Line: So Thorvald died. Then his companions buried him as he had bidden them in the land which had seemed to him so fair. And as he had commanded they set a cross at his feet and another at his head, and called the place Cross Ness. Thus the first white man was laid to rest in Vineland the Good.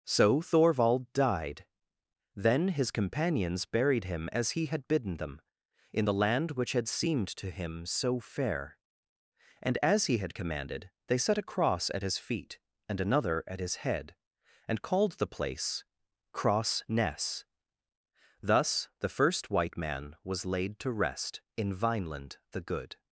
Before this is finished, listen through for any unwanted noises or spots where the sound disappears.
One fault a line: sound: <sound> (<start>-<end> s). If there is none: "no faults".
no faults